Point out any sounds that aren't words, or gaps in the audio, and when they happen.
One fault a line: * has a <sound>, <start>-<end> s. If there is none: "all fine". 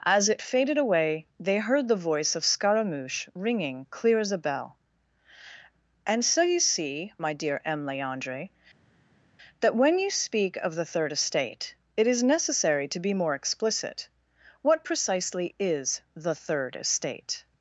all fine